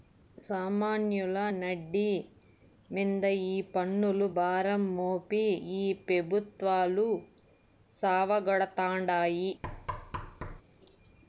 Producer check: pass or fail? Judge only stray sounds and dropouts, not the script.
fail